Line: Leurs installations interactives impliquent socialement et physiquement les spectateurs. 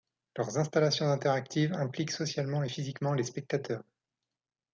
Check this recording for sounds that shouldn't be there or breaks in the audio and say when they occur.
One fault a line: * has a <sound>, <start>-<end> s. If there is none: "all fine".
all fine